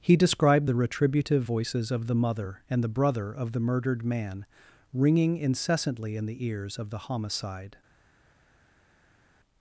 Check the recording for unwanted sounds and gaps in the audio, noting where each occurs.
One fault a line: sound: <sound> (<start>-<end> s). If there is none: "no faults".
no faults